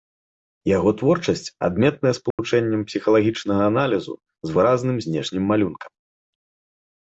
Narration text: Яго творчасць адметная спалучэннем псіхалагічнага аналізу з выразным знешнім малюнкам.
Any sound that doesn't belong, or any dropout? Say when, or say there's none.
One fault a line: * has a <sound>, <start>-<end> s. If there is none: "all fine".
* has a dropout, 2.3-2.4 s